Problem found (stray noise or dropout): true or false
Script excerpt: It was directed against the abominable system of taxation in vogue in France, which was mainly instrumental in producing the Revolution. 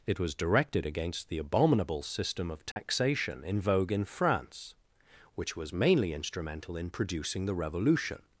true